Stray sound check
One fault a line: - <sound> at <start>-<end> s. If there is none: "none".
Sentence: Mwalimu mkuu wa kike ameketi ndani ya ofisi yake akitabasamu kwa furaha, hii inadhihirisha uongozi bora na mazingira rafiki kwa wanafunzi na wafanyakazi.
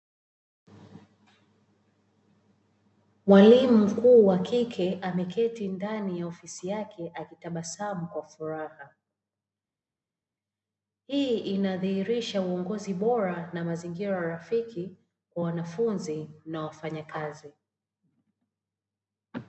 none